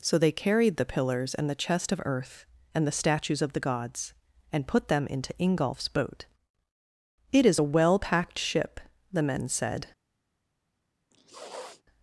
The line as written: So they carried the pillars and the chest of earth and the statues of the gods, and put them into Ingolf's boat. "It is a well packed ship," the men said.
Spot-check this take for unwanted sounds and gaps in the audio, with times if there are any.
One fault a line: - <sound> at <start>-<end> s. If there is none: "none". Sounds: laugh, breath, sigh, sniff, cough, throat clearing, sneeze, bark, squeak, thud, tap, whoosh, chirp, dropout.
- sniff at 11.1-11.8 s